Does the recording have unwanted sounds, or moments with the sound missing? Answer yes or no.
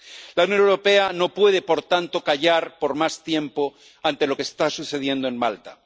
no